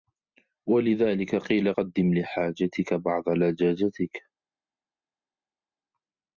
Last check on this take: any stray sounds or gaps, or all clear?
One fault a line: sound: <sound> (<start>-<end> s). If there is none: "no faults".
no faults